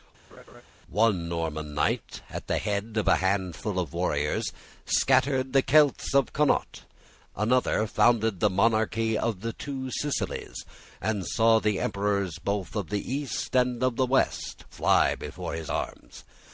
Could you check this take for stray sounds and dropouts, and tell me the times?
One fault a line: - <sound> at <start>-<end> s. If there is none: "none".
- laugh at 0.3-0.6 s